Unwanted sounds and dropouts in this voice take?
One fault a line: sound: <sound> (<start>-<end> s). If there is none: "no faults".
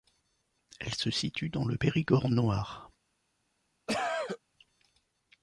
sound: cough (3.9-4.4 s)